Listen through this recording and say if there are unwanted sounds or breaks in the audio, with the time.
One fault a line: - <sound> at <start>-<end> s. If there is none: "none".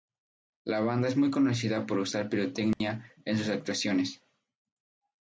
- dropout at 2.7-2.8 s